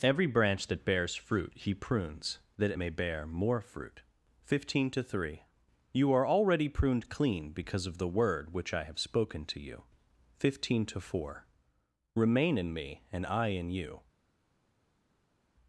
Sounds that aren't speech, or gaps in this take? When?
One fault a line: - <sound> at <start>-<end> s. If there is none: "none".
none